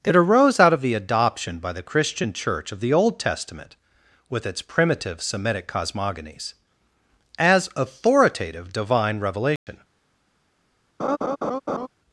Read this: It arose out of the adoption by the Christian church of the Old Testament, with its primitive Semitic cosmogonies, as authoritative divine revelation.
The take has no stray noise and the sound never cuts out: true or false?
false